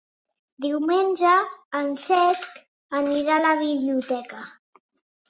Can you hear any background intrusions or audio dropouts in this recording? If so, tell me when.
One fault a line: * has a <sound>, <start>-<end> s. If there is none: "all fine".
all fine